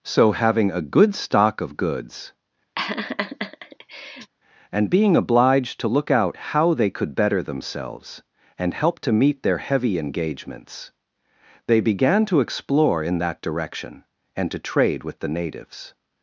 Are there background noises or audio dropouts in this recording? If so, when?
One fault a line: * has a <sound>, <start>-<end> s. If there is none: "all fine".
* has a laugh, 2.8-4.3 s